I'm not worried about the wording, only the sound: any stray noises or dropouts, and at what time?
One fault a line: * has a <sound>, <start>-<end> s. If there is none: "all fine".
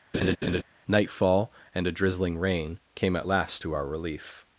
* has a laugh, 0.1-0.6 s